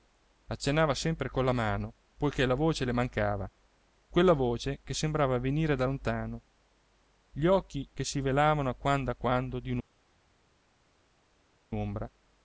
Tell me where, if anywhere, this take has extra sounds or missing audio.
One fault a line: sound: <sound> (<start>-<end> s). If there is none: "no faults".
no faults